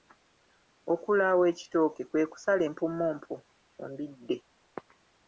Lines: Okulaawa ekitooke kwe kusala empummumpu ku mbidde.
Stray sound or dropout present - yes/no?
no